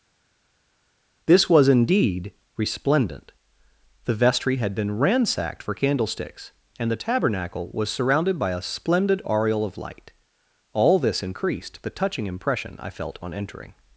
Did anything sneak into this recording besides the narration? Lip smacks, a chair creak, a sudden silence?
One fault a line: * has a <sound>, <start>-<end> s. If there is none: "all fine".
all fine